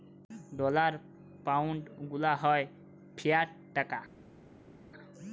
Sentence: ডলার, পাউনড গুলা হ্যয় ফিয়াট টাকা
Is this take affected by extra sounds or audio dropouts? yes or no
no